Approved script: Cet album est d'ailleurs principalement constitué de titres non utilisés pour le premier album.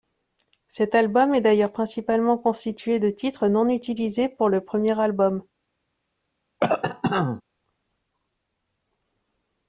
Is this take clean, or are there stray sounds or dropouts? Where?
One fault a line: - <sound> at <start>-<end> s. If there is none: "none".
- cough at 6.6-7.4 s